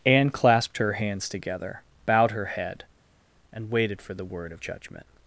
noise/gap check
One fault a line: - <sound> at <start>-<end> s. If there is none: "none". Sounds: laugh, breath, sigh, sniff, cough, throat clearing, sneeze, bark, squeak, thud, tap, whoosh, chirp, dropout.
none